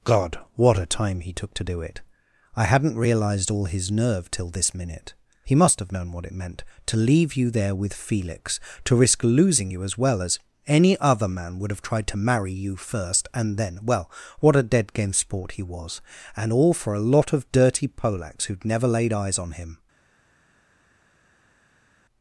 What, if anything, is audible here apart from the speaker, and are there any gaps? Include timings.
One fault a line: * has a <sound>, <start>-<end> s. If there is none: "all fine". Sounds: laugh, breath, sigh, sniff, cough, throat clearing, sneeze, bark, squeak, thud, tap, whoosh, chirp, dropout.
all fine